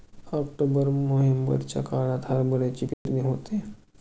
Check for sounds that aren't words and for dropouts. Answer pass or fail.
fail